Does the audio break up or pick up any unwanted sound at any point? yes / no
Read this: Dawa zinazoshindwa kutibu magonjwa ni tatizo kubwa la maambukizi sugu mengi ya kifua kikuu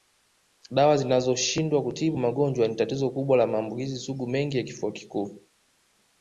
no